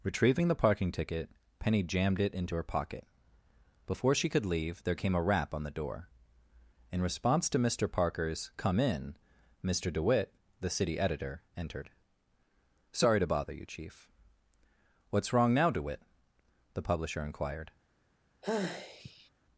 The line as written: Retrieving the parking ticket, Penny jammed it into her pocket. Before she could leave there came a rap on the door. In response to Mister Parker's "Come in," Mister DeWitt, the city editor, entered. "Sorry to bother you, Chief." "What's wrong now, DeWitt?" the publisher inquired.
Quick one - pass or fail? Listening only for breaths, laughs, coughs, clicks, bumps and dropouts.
fail